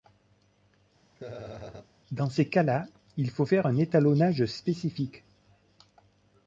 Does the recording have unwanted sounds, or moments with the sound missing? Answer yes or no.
yes